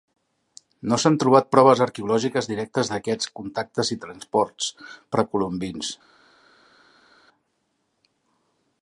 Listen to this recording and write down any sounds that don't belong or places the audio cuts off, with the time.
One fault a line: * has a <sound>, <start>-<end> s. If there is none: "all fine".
all fine